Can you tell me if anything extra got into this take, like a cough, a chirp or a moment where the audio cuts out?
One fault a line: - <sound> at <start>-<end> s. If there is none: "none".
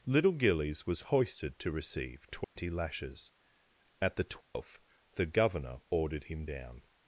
- dropout at 2.4-2.6 s
- dropout at 4.4-4.5 s